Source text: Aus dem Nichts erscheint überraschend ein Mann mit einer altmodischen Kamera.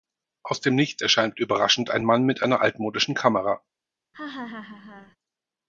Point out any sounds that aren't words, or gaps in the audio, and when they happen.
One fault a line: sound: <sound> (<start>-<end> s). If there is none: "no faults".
sound: laugh (4.1-5.2 s)